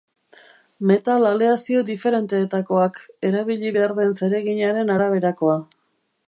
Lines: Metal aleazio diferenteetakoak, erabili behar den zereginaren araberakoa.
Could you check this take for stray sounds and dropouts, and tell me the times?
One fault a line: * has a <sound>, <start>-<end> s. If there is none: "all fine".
all fine